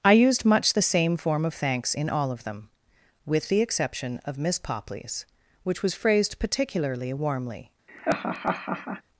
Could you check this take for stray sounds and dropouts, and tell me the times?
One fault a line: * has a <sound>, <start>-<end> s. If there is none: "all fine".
* has a laugh, 7.9-9.0 s